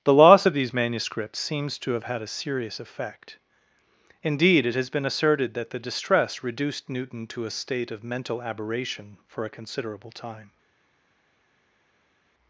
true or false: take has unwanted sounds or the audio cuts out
false